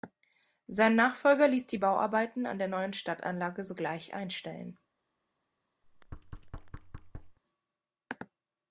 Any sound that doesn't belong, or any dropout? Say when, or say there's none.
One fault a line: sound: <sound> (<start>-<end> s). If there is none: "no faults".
sound: thud (5.8-7.4 s)